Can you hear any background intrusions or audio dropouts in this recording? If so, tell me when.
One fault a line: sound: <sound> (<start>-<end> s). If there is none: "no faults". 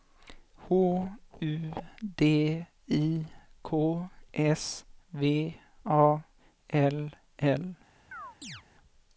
sound: chirp (8.1-8.6 s)